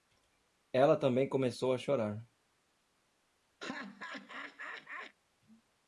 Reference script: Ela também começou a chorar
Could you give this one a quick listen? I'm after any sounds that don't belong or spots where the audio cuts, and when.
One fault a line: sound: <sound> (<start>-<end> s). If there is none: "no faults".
sound: laugh (3.6-5.2 s)